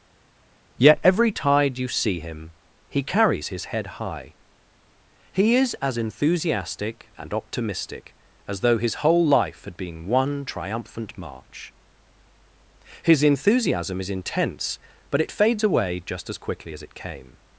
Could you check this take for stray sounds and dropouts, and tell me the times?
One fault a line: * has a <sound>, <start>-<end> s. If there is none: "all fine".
all fine